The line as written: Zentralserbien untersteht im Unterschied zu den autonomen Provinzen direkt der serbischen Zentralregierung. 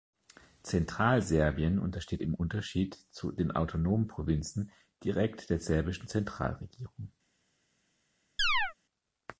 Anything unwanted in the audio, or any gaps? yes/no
yes